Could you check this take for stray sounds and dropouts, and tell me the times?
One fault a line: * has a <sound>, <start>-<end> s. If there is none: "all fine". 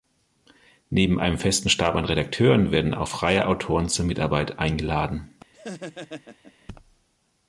* has a laugh, 5.5-6.7 s